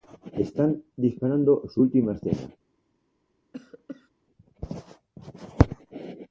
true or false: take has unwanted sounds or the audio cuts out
true